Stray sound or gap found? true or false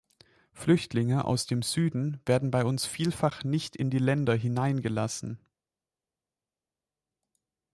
false